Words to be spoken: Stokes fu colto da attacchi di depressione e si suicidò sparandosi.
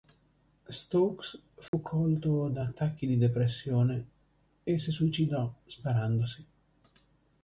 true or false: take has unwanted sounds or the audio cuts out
true